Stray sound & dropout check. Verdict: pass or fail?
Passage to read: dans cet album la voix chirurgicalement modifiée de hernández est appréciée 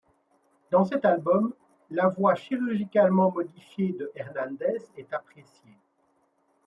pass